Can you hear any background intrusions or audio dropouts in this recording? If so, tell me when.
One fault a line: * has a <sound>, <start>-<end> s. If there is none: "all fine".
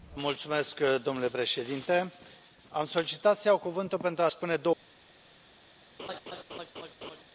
* has a laugh, 6.0-7.2 s